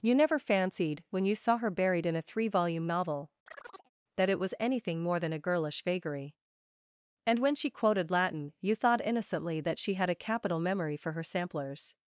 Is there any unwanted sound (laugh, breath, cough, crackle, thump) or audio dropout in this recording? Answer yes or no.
yes